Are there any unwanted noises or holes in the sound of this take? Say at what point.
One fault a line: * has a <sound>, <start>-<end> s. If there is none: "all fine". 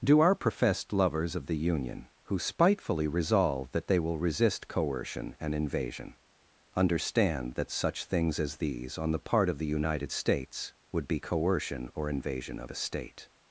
all fine